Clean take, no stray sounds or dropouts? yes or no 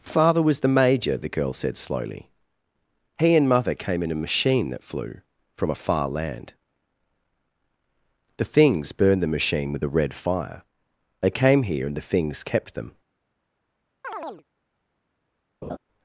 no